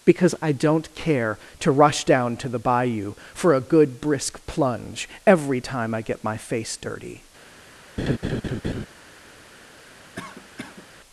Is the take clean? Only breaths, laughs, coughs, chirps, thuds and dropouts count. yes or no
no